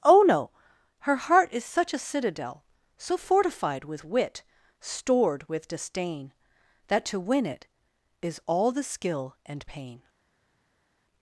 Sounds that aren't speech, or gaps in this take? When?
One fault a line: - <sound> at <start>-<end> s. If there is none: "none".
none